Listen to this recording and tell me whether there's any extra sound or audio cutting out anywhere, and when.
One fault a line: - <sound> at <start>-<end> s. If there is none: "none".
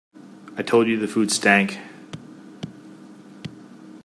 none